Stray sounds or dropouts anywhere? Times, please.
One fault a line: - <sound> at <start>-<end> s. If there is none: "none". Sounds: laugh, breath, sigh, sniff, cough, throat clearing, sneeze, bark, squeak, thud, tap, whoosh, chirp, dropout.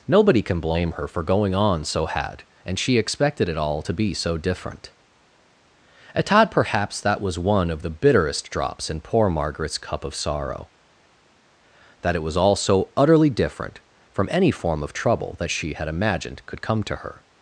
none